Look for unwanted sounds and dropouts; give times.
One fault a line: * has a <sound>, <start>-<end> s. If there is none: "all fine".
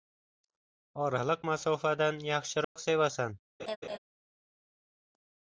* has a dropout, 2.6-2.8 s
* has a laugh, 3.6-4.0 s